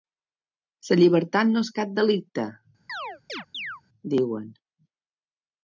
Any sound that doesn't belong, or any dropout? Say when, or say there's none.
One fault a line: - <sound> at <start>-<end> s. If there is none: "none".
- chirp at 2.9-3.8 s